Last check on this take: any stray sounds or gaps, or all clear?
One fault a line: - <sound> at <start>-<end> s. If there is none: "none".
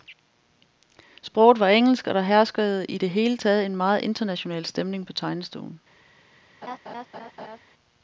- laugh at 6.6-7.6 s